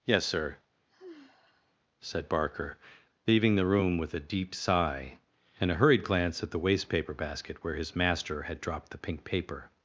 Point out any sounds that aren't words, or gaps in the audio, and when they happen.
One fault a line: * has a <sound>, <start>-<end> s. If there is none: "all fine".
* has a sigh, 0.9-1.8 s